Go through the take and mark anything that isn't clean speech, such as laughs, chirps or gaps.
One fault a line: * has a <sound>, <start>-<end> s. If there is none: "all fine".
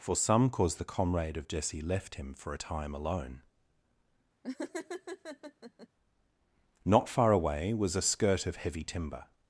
* has a laugh, 4.4-5.9 s